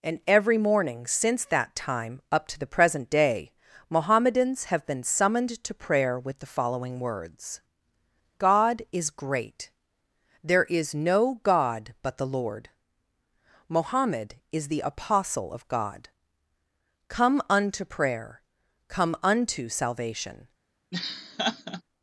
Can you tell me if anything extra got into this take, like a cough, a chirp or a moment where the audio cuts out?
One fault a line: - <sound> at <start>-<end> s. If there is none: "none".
- laugh at 20.9-21.8 s